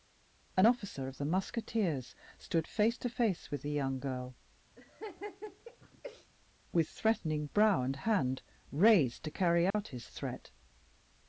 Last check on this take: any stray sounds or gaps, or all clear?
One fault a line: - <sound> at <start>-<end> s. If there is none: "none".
- laugh at 4.8-6.3 s
- dropout at 9.7-9.7 s